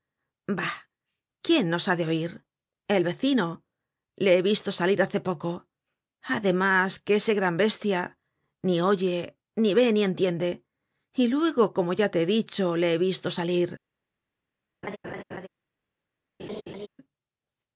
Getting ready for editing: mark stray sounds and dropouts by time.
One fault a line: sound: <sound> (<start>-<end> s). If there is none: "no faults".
sound: laugh (14.8-15.5 s)
sound: laugh (16.4-16.9 s)